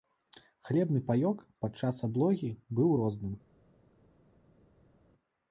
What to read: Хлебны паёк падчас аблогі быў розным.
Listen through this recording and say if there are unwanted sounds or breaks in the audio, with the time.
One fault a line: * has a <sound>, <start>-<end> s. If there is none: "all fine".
all fine